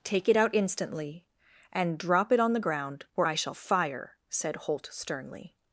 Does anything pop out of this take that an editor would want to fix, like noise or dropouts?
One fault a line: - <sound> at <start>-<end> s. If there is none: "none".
none